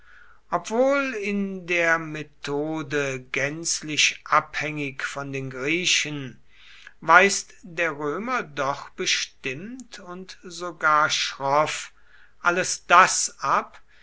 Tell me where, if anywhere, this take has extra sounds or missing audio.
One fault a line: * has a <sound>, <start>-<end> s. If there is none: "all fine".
all fine